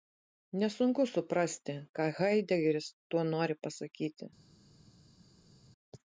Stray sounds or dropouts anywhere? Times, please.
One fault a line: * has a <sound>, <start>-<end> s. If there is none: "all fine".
all fine